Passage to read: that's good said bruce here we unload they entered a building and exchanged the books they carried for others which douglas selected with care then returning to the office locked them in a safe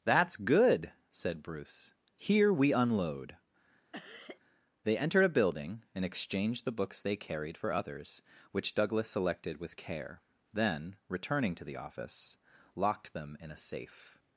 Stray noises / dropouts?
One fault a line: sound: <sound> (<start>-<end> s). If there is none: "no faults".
sound: cough (3.9-4.4 s)